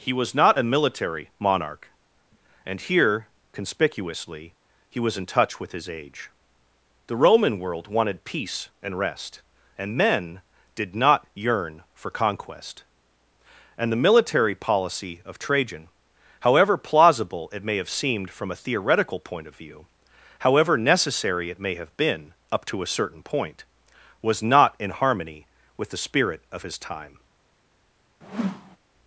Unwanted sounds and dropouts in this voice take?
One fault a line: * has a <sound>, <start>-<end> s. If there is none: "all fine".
* has a whoosh, 28.2-28.8 s